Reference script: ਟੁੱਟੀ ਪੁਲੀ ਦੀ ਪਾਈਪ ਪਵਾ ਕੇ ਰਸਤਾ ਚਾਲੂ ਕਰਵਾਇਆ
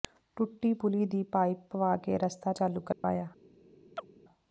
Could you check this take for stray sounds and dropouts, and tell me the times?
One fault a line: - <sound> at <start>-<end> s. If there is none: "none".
- dropout at 2.9-3.0 s
- chirp at 4.0-4.1 s